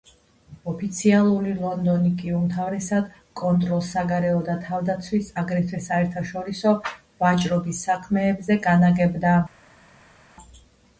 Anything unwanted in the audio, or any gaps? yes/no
no